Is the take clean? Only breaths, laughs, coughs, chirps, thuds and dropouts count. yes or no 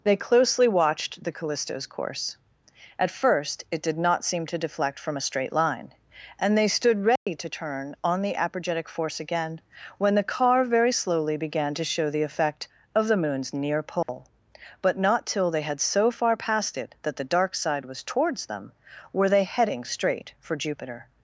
no